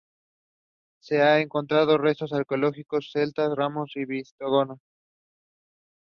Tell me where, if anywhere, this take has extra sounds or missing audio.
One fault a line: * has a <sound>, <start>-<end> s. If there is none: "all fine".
all fine